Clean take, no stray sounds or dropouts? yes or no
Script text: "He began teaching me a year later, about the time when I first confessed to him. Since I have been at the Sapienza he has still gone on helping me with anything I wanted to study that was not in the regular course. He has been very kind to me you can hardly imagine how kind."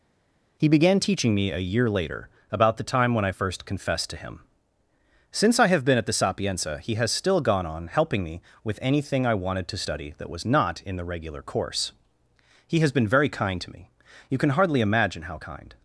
yes